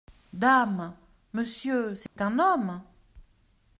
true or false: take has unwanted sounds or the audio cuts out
true